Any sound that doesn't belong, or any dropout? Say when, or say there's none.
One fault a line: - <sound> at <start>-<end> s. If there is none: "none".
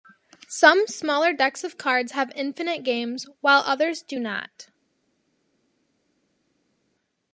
none